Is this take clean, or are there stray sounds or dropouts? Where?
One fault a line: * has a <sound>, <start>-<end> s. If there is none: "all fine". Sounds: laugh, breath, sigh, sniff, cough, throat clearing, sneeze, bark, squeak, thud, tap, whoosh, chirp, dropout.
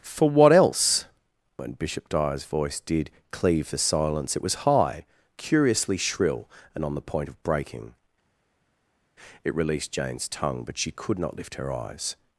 all fine